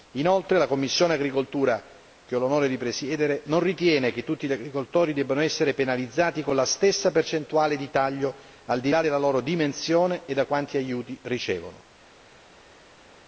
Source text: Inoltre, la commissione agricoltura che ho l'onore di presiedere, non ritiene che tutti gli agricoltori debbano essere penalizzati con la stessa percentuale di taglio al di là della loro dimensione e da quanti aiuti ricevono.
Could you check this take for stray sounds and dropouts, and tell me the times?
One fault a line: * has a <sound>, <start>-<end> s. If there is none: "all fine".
all fine